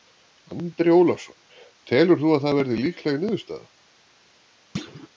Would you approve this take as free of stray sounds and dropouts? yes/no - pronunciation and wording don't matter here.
no